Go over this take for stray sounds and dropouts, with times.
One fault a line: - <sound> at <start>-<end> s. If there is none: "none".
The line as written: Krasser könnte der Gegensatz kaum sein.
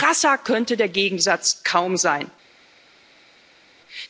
none